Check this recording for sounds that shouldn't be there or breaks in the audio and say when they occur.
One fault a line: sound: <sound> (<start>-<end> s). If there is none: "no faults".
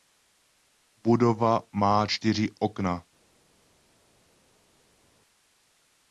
no faults